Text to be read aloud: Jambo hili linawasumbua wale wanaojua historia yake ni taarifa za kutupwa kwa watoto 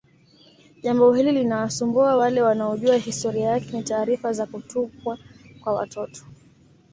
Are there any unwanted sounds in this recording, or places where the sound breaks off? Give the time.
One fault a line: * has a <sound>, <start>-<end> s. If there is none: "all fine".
all fine